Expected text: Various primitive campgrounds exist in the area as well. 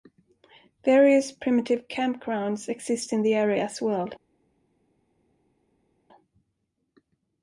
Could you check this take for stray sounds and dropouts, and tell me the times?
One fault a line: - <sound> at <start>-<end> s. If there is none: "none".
none